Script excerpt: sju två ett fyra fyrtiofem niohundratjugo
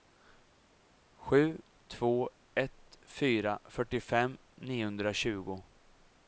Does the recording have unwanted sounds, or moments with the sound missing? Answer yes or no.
no